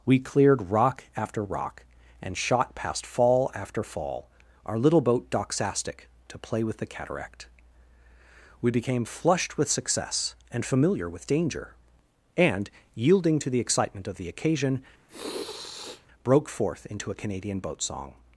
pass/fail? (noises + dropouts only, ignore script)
fail